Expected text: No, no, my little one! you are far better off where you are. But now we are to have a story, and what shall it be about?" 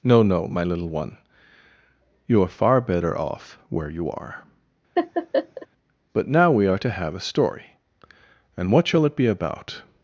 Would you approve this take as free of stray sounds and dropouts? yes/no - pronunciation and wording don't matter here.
no